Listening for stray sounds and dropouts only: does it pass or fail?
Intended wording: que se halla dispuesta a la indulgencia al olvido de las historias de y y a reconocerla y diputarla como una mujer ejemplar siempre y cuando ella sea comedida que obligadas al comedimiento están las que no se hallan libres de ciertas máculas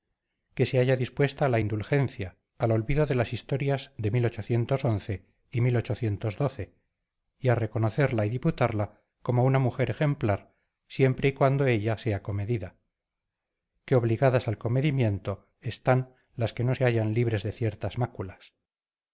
pass